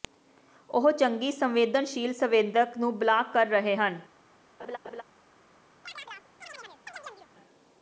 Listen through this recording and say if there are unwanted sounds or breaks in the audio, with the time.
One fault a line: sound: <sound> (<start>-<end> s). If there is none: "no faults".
sound: laugh (4.6-5.0 s)
sound: chirp (5.8-7.3 s)